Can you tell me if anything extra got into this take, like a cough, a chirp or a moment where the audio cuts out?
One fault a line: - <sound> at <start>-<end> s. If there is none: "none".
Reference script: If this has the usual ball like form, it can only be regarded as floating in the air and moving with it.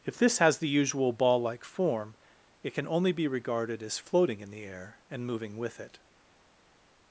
none